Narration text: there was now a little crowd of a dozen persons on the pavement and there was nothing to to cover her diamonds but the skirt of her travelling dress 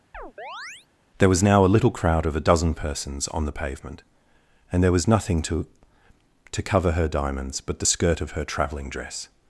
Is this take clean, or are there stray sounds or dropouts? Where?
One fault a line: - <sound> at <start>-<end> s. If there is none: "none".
- chirp at 0.1-0.9 s